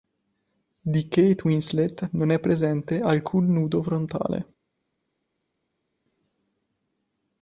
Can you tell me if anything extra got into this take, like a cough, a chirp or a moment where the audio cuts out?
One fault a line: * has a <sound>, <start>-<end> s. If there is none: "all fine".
all fine